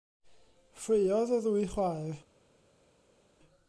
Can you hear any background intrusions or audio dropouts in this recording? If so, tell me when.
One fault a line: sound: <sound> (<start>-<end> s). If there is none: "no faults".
no faults